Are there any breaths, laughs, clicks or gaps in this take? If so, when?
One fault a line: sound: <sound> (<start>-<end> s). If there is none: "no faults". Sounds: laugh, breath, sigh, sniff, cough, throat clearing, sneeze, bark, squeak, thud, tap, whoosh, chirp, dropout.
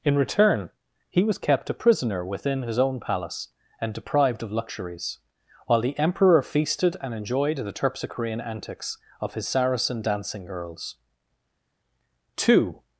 no faults